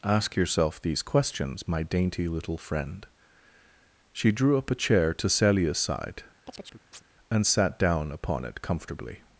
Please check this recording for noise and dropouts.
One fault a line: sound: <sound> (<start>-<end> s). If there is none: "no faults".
sound: chirp (6.5-7.0 s)